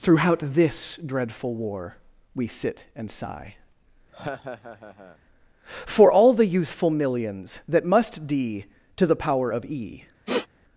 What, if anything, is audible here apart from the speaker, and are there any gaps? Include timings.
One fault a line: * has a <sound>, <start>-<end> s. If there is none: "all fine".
* has a laugh, 4.1-5.2 s
* has a sniff, 10.3-10.5 s